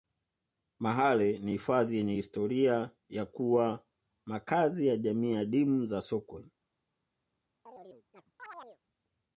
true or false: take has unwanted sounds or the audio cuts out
true